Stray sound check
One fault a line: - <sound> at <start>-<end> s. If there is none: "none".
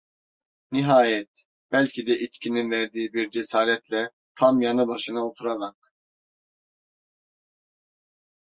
none